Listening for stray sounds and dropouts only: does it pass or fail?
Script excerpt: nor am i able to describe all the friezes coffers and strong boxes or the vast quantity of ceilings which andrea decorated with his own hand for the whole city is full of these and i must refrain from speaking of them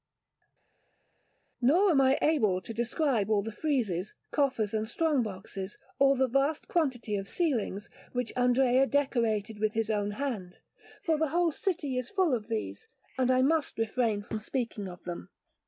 pass